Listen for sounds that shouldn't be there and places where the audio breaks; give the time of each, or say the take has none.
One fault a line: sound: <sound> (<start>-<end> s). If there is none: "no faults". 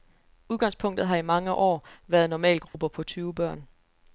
sound: dropout (2.7-2.7 s)